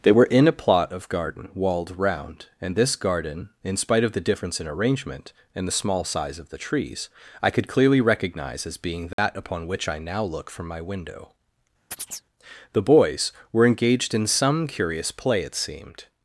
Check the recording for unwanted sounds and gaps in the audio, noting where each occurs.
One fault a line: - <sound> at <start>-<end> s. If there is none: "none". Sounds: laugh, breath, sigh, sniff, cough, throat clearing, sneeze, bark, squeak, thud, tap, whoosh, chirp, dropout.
- dropout at 9.1-9.2 s
- chirp at 11.9-12.3 s